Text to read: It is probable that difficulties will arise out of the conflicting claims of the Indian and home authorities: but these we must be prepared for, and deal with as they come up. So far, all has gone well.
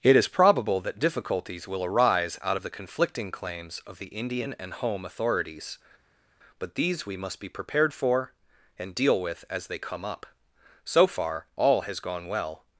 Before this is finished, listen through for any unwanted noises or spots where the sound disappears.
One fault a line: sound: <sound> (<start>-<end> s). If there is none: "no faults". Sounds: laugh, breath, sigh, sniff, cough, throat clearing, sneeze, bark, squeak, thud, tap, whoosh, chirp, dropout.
no faults